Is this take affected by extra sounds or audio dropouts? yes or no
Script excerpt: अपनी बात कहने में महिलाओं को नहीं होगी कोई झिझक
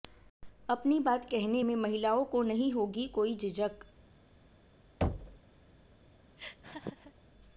yes